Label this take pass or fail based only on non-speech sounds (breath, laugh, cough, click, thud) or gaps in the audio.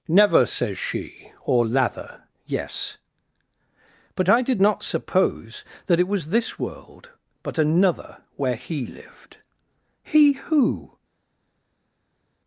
pass